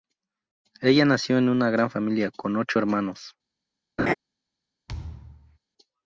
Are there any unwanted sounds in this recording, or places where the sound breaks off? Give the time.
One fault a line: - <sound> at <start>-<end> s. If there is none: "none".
- laugh at 4.0-4.1 s
- thud at 4.9-5.6 s